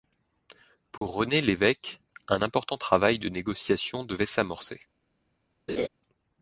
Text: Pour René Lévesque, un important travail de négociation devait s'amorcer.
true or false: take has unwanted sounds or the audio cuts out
true